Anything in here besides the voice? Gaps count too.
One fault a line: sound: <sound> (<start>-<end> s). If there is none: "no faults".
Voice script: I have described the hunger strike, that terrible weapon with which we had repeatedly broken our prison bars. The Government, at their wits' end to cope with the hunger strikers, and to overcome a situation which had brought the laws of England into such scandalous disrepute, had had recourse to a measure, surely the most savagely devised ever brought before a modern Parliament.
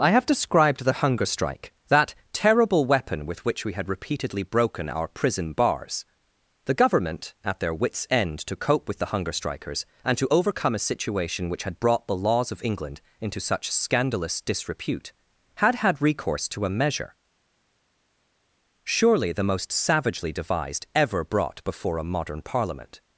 no faults